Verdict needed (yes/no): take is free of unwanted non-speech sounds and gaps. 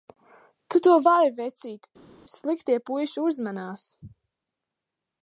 yes